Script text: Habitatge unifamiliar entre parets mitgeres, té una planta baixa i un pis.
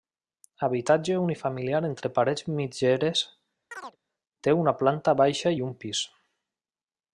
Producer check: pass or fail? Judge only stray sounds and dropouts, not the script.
fail